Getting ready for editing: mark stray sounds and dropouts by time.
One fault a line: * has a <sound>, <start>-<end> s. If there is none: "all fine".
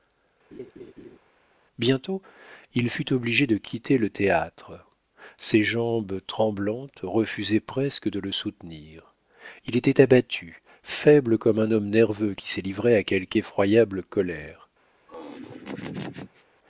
* has a laugh, 0.5-1.2 s
* has a laugh, 15.1-16.4 s